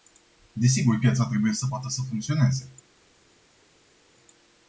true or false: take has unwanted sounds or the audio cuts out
false